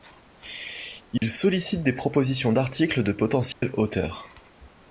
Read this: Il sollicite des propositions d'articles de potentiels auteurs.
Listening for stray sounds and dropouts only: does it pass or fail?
fail